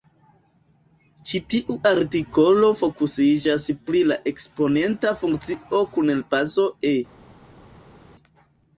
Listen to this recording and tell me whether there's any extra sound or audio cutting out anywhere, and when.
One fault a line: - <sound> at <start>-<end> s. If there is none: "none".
none